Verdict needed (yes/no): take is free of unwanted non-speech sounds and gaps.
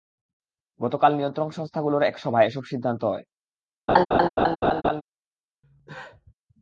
no